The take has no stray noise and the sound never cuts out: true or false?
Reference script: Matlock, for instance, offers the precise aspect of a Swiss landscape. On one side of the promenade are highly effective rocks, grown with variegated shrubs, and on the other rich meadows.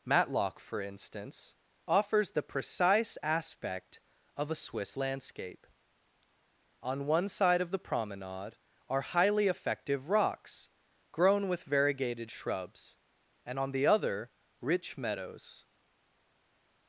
true